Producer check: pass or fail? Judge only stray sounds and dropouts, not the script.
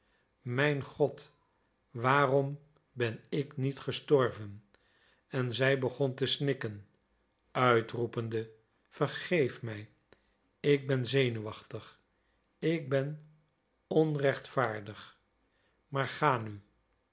pass